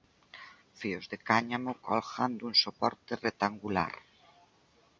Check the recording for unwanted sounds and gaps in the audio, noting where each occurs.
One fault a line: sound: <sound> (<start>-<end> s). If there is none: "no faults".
no faults